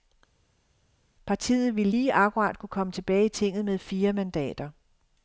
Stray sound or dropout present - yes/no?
no